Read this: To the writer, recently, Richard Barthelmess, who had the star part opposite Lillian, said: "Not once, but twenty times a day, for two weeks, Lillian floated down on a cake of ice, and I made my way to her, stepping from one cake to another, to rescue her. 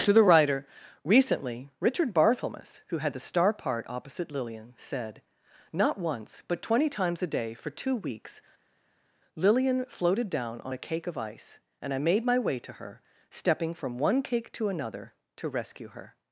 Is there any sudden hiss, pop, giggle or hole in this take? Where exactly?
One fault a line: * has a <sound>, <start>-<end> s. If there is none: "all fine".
all fine